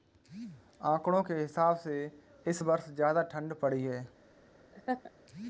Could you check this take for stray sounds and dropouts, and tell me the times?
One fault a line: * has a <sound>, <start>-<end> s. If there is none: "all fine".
* has a laugh, 4.7-5.1 s